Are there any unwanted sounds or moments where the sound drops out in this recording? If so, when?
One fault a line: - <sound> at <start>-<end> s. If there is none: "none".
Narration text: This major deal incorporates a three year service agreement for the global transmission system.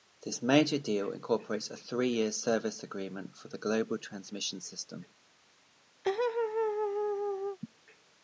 - laugh at 6.0-7.6 s